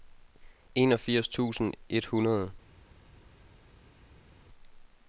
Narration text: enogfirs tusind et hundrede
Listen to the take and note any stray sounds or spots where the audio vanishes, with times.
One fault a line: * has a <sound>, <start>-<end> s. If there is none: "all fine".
all fine